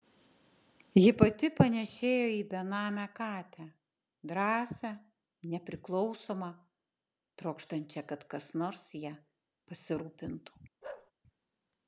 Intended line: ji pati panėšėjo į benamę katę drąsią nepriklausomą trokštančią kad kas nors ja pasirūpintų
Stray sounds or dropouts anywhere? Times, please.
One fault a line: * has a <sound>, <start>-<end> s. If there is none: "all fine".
* has a bark, 10.8-11.1 s